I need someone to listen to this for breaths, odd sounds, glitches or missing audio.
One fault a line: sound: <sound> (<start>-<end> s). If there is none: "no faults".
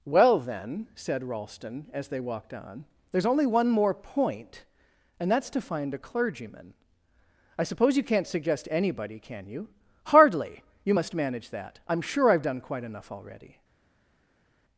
no faults